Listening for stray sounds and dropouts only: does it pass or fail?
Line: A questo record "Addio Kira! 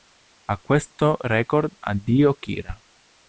pass